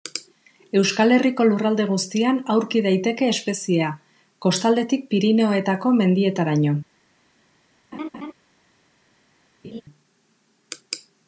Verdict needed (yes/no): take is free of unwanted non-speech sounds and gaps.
no